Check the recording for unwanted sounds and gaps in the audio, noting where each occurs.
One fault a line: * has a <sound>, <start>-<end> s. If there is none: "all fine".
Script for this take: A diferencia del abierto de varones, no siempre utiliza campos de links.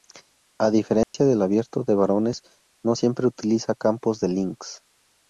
* has a dropout, 1.0-1.1 s